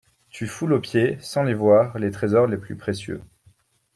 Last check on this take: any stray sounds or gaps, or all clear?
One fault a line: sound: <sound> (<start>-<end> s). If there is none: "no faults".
no faults